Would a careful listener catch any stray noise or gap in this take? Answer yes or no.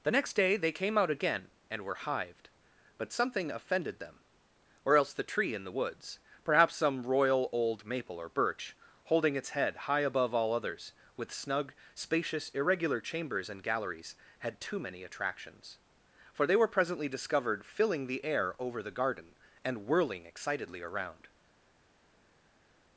no